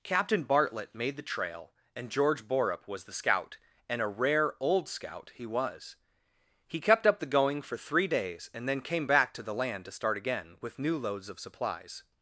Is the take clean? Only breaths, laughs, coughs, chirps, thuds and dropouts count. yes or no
yes